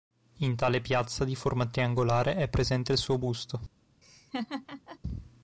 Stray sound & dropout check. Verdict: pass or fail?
fail